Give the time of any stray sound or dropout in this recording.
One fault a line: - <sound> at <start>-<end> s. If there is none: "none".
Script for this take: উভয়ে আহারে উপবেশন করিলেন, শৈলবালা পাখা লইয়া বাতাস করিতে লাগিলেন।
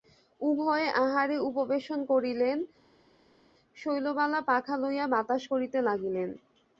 none